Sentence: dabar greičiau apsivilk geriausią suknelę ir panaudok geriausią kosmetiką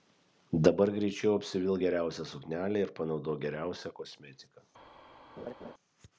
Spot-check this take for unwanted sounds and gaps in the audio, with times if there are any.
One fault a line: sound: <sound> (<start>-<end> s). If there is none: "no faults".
sound: laugh (5.4-5.7 s)